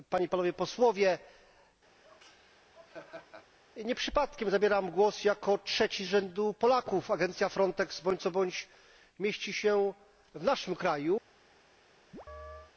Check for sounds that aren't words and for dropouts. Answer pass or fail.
fail